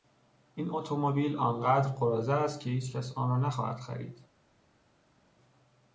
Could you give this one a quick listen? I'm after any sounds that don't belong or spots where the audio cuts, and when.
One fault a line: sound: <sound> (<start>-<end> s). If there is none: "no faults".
no faults